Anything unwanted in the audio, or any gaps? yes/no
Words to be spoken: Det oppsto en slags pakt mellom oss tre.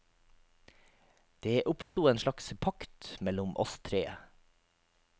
yes